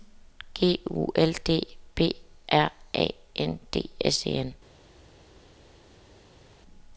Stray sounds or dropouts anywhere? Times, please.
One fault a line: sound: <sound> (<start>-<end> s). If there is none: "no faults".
no faults